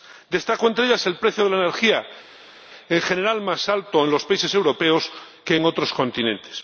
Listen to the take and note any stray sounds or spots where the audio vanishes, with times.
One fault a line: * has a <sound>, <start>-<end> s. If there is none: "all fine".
all fine